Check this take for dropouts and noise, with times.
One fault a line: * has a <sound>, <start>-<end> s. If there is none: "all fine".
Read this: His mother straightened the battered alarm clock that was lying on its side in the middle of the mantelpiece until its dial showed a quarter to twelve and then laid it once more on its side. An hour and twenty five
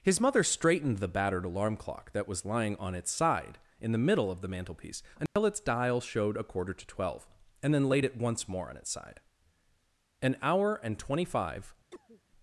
* has a dropout, 5.3-5.4 s
* has a cough, 11.9-12.2 s